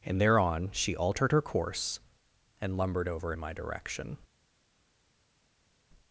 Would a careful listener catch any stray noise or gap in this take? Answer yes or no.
no